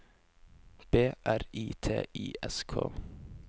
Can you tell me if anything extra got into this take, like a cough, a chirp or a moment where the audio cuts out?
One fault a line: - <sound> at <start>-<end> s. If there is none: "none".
none